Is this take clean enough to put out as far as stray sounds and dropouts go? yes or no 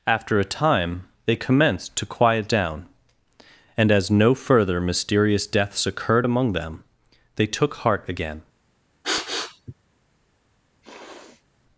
no